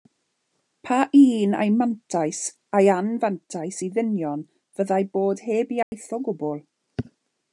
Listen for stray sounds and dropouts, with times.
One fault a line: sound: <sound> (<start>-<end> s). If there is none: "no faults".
sound: dropout (5.8-5.9 s)